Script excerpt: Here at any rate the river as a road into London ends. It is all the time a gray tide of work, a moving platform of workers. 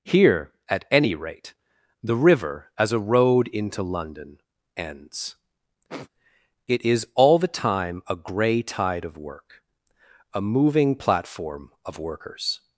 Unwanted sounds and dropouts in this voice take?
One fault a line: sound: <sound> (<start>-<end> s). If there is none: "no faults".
sound: sniff (5.9-6.1 s)